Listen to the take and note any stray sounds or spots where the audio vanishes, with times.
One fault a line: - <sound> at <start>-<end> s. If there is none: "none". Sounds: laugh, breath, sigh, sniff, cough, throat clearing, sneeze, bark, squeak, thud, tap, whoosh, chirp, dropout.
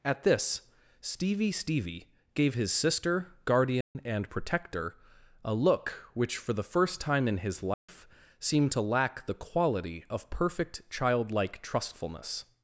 - dropout at 3.8-4.0 s
- dropout at 7.7-7.9 s